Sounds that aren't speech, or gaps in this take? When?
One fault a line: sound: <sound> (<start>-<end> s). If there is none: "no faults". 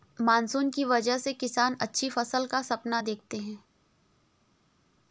no faults